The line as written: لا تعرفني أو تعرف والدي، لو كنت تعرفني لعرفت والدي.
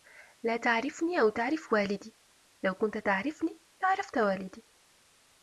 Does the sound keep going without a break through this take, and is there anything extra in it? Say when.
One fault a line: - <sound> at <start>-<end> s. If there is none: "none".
none